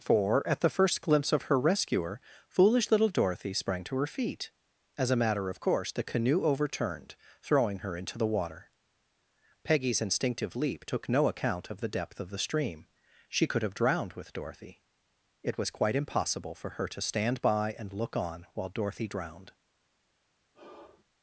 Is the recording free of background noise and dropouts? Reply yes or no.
no